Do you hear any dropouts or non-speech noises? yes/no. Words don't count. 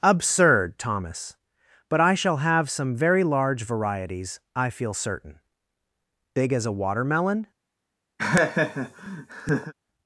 yes